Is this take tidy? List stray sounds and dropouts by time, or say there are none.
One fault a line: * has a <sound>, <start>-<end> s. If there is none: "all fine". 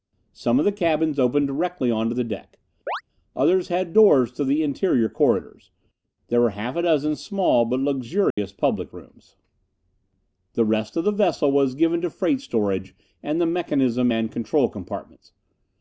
* has a chirp, 2.9-3.0 s
* has a dropout, 8.3-8.4 s